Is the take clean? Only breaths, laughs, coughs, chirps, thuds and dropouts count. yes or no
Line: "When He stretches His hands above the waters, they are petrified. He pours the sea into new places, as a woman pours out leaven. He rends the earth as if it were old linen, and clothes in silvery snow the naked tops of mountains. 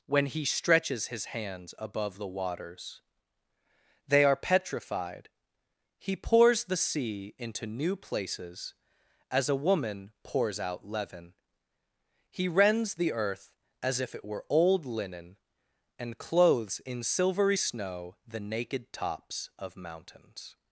yes